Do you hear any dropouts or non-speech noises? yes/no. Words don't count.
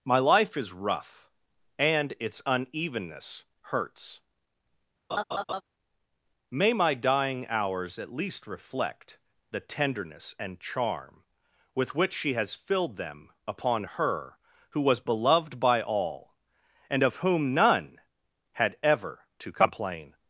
yes